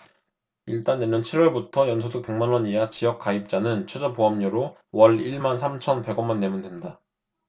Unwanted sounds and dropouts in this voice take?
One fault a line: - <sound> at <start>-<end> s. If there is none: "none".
none